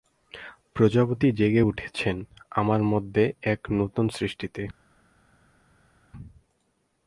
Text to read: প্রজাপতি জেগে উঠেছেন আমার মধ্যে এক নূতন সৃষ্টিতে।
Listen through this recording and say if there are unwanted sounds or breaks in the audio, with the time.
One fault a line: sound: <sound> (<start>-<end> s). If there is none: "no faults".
no faults